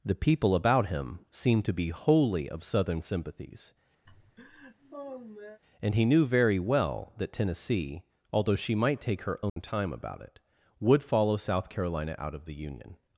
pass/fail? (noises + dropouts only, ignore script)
fail